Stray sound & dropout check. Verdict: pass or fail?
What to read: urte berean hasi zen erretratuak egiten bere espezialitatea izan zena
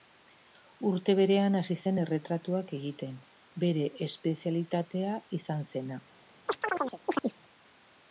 fail